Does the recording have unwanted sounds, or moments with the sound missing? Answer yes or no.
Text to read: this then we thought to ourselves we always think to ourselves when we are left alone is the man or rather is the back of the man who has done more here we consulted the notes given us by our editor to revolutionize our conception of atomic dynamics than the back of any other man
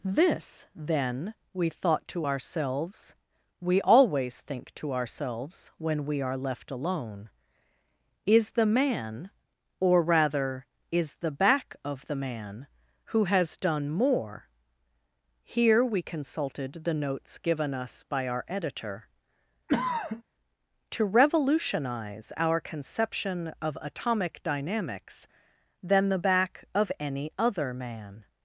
yes